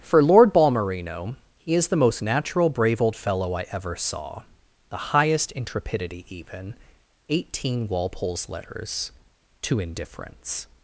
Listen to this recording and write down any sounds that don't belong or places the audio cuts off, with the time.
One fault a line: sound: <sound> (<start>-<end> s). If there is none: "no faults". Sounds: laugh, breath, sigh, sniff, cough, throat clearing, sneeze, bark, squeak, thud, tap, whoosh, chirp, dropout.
no faults